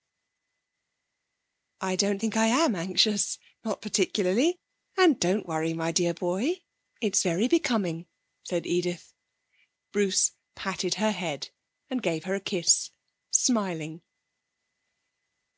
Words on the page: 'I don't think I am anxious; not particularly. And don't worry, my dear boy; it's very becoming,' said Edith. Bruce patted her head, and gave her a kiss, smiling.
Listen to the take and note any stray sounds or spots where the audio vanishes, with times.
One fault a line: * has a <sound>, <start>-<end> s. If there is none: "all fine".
all fine